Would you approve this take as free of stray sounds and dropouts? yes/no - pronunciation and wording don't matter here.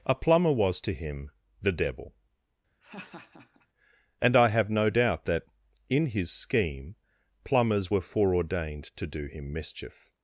no